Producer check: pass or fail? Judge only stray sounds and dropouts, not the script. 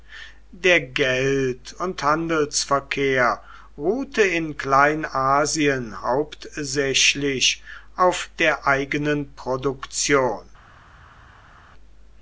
pass